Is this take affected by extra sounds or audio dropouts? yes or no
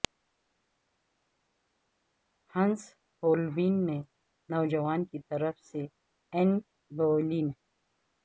no